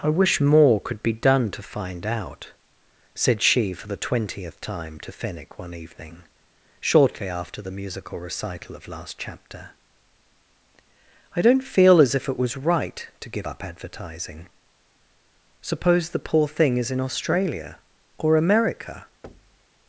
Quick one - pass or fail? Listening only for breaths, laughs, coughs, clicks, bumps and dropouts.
fail